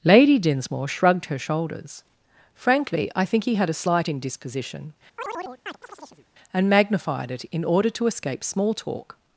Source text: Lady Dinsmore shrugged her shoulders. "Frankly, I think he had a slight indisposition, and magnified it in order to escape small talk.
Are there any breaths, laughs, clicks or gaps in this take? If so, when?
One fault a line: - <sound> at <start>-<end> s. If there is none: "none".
- chirp at 5.2-6.3 s